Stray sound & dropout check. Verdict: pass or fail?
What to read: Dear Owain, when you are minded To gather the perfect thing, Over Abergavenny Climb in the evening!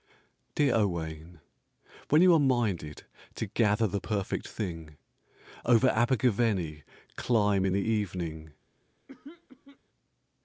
fail